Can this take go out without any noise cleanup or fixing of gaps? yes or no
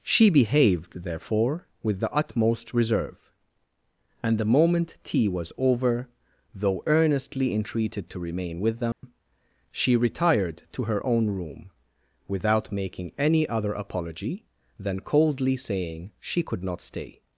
no